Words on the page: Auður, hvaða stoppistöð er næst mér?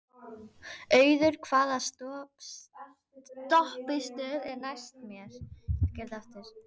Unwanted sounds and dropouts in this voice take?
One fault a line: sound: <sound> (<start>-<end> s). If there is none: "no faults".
no faults